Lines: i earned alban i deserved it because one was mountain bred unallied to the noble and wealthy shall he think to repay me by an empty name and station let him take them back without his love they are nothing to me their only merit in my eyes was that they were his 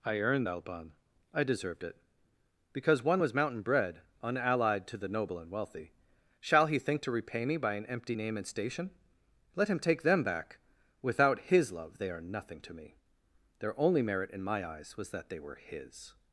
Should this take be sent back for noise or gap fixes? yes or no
no